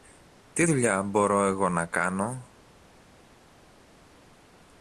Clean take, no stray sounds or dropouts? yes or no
yes